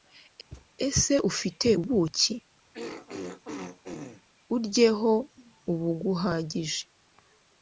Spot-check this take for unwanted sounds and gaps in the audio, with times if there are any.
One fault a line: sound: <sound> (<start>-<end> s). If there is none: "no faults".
sound: thud (0.5-0.7 s)
sound: throat clearing (2.7-4.2 s)